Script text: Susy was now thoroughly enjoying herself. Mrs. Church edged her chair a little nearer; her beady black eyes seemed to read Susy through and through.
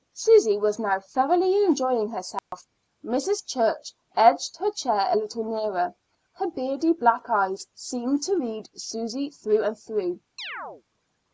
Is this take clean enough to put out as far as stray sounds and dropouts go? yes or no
no